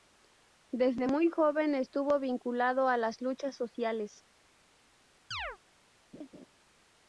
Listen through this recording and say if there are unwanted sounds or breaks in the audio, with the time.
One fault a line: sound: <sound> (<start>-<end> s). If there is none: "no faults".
sound: chirp (5.3-5.6 s)
sound: laugh (6.1-6.5 s)